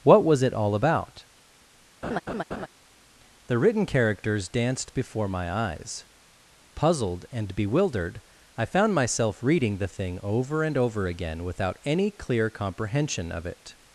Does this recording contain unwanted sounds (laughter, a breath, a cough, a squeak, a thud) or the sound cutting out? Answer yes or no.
yes